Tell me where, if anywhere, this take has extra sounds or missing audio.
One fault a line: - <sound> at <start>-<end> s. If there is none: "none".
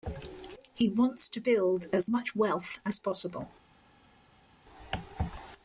none